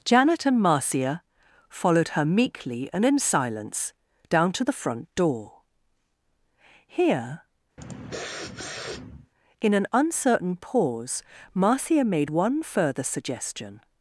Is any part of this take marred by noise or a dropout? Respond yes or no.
yes